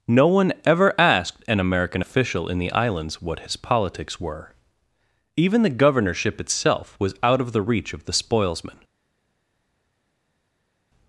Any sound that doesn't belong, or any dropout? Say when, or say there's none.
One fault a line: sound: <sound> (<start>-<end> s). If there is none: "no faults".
no faults